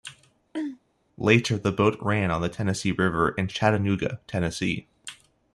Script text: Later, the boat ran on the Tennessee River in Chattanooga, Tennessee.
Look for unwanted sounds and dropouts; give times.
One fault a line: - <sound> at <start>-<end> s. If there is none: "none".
- throat clearing at 0.5-0.8 s